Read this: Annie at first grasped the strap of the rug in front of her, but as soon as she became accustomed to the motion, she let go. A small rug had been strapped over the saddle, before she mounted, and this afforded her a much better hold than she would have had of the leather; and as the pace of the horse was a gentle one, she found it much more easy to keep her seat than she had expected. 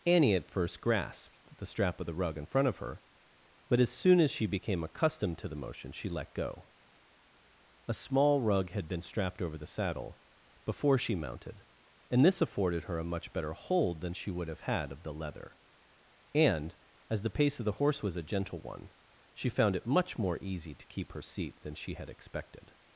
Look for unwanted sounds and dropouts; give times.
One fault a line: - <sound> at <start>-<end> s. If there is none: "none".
none